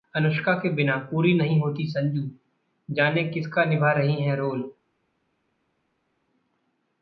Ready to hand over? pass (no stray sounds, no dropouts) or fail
pass